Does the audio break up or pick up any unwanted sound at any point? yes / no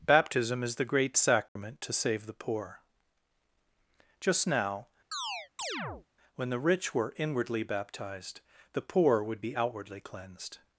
yes